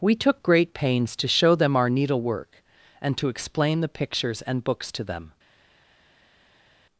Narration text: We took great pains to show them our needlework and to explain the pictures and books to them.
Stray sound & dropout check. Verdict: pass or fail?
pass